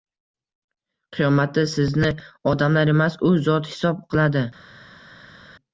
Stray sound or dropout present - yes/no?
no